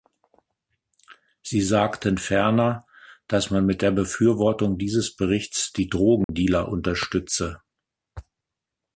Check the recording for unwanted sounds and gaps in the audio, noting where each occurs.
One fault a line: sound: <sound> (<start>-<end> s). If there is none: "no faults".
sound: dropout (6.2-6.3 s)